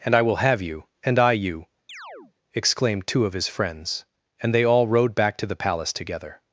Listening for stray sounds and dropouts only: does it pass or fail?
fail